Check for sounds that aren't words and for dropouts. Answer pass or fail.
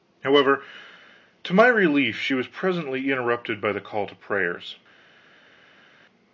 pass